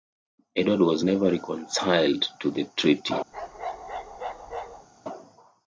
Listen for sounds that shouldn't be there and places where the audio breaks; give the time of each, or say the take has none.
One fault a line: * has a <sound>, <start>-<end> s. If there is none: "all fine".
* has a bark, 3.3-4.9 s